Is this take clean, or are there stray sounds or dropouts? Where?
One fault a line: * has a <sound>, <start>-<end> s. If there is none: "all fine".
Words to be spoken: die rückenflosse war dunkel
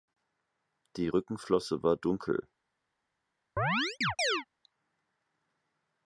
* has a chirp, 3.6-4.5 s